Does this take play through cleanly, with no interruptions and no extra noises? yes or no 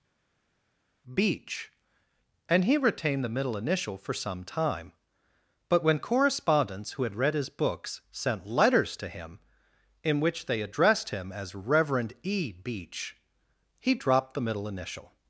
yes